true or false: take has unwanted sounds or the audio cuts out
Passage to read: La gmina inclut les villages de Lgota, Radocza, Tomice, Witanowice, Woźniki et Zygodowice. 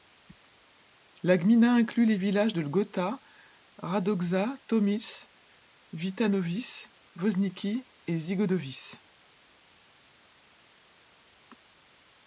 false